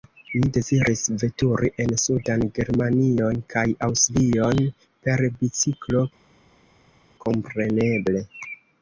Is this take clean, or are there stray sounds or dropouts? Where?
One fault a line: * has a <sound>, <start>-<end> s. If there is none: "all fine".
all fine